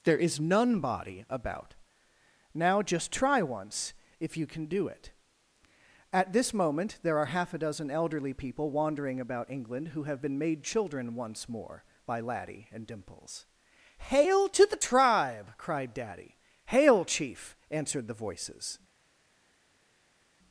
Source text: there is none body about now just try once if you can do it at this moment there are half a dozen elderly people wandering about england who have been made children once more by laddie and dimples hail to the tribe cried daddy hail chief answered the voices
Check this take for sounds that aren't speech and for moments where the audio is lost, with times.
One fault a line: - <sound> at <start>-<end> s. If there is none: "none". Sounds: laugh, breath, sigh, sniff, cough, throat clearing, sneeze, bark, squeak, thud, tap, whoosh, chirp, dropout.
none